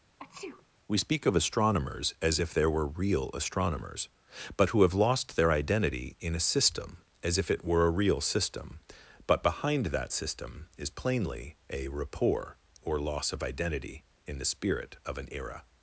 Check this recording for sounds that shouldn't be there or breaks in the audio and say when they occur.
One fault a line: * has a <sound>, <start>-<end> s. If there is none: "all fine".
* has a sneeze, 0.2-0.7 s